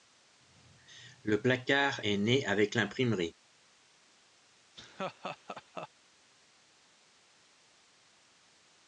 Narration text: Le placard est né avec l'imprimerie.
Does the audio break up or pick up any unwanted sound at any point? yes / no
yes